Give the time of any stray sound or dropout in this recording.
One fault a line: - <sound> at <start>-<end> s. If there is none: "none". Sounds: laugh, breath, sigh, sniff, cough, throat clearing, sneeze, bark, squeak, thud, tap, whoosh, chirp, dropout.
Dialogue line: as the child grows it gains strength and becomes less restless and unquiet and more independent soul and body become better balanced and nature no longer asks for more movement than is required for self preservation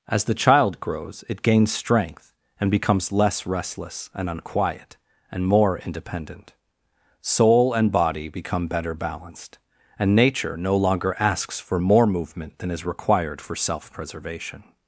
none